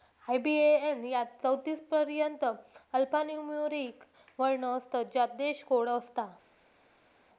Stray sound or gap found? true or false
false